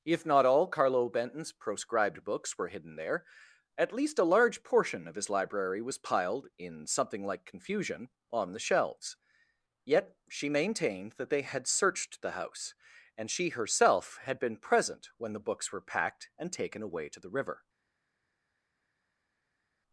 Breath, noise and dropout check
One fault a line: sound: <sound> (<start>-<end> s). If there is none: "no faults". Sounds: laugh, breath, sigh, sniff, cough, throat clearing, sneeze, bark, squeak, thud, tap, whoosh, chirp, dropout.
no faults